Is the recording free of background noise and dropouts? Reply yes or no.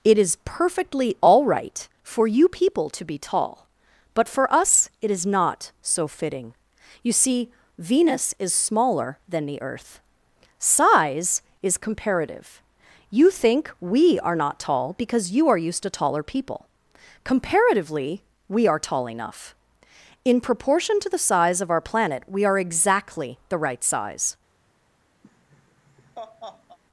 no